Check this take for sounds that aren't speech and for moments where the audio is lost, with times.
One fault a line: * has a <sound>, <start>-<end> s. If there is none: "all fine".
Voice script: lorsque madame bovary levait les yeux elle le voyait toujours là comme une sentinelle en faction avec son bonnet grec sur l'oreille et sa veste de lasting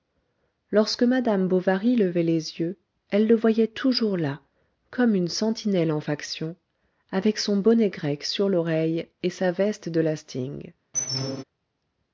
* has a squeak, 10.9-11.4 s